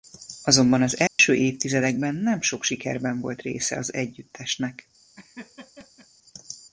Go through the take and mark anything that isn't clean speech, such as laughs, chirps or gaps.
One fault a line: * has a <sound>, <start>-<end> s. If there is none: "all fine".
* has a dropout, 1.1-1.2 s
* has a laugh, 5.2-6.1 s